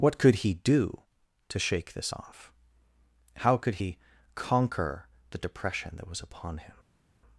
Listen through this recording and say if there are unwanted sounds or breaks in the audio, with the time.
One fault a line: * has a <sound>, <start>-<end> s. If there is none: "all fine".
all fine